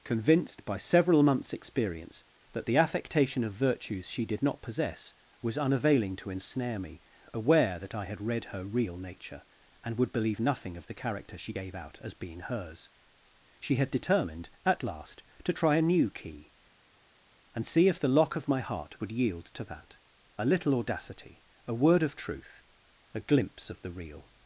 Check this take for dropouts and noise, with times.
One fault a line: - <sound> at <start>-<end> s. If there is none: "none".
none